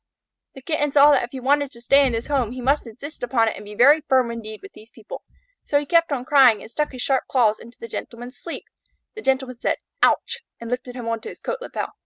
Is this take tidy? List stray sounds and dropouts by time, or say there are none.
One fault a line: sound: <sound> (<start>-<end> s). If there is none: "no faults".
no faults